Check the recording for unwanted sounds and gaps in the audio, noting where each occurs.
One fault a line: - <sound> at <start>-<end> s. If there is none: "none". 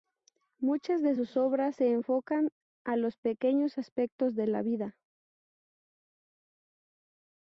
none